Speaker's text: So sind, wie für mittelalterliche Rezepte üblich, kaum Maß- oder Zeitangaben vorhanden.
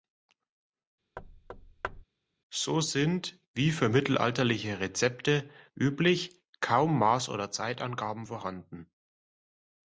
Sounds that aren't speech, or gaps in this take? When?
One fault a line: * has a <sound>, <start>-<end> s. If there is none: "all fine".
* has a thud, 1.2-2.0 s